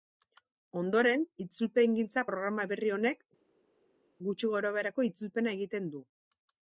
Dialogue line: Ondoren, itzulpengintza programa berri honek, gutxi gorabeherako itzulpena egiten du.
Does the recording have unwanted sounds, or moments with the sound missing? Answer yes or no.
no